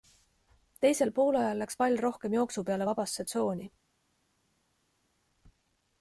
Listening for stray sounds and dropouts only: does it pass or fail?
pass